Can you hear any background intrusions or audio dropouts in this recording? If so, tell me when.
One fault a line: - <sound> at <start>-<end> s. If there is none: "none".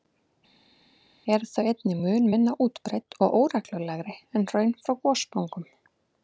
none